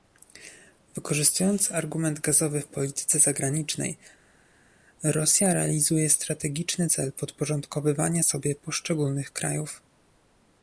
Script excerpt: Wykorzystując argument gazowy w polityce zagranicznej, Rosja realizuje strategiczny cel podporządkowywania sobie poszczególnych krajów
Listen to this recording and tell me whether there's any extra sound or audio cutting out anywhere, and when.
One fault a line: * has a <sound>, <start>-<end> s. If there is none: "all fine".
all fine